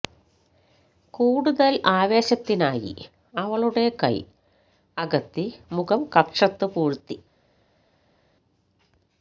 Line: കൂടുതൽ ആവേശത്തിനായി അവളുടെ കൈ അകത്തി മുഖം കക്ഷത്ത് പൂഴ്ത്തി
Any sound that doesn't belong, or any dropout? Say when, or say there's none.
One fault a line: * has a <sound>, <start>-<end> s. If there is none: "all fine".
all fine